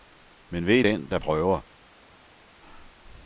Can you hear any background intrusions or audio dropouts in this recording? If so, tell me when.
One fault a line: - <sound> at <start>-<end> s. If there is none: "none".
none